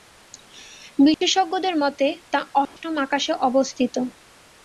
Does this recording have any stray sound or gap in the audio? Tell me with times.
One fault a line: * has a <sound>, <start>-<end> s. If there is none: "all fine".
* has a dropout, 1.1-1.2 s
* has a dropout, 2.7-2.8 s